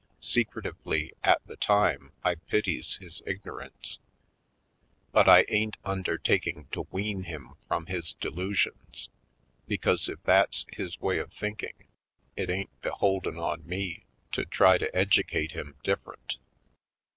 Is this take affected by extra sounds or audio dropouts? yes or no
no